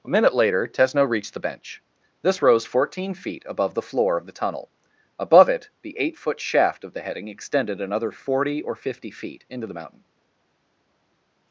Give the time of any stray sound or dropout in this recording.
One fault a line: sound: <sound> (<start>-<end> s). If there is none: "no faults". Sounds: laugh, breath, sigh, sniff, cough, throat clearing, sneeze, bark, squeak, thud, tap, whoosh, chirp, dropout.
no faults